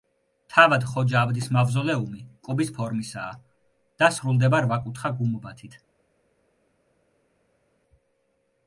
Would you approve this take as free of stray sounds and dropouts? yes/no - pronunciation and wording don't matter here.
yes